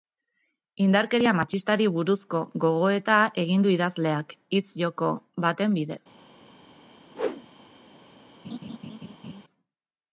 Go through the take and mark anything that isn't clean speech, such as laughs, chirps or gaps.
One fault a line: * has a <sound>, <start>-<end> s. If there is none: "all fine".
* has a whoosh, 7.1-7.5 s
* has a laugh, 8.4-9.4 s